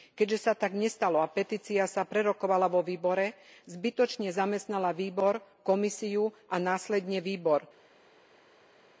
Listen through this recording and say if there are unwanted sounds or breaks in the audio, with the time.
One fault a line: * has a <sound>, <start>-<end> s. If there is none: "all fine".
all fine